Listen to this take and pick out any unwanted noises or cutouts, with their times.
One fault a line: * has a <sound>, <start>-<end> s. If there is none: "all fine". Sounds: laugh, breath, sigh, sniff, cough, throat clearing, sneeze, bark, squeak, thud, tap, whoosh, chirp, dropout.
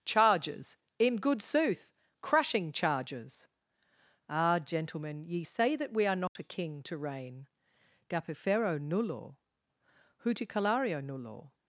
* has a dropout, 6.3-6.4 s